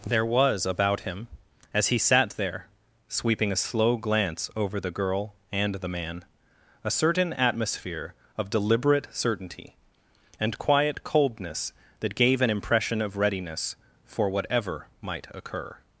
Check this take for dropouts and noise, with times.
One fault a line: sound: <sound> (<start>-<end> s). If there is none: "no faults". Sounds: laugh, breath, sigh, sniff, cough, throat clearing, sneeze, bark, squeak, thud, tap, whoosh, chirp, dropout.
no faults